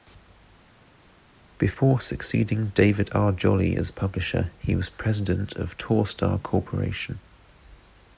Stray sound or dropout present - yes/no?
no